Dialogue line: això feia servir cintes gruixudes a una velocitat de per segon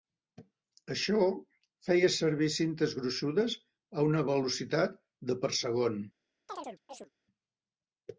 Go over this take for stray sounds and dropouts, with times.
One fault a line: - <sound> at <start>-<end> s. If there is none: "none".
- chirp at 6.5-7.1 s